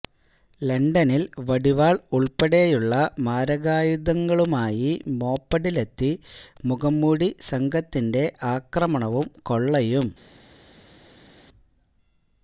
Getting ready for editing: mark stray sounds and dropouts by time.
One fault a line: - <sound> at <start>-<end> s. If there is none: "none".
none